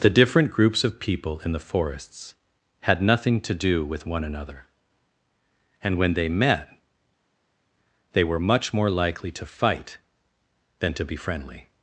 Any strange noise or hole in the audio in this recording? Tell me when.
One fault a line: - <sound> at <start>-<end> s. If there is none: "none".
none